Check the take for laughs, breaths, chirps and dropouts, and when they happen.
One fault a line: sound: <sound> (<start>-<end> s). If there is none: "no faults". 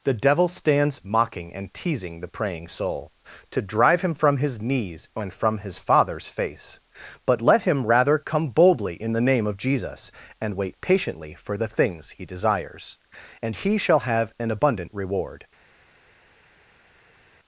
no faults